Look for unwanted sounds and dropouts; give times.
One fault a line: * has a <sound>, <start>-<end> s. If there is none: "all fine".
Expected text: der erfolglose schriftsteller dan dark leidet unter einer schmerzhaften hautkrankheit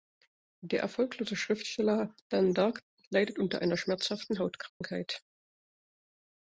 * has a dropout, 4.7-4.8 s